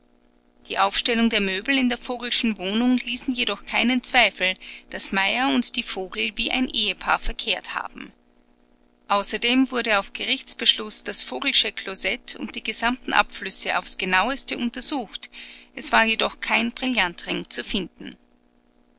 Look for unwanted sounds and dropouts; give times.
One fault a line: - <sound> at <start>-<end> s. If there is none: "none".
none